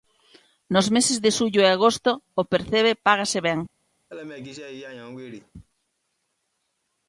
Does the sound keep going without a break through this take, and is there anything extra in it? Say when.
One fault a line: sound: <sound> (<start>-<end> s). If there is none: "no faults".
sound: laugh (4.1-5.5 s)